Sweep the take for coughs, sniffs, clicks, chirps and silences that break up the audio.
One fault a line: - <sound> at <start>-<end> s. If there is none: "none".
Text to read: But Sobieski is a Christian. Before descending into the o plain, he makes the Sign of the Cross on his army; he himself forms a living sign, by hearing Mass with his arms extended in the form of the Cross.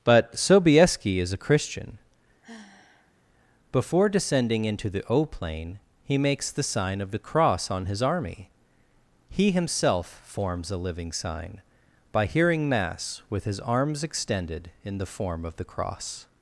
- sigh at 2.4-3.1 s